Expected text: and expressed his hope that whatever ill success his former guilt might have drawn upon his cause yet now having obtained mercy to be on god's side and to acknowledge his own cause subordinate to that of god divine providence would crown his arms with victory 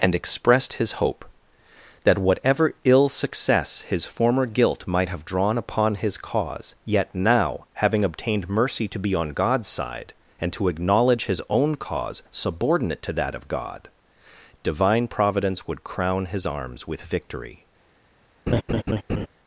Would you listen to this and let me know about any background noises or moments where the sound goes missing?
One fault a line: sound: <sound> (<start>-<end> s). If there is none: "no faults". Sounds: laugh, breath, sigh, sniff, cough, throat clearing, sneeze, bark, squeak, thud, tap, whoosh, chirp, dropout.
sound: laugh (18.5-19.3 s)